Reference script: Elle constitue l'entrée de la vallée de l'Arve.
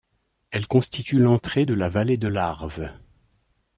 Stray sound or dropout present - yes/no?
no